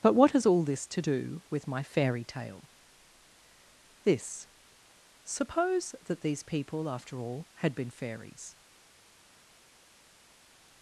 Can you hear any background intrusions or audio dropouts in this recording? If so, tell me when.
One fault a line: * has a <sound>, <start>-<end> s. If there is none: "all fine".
all fine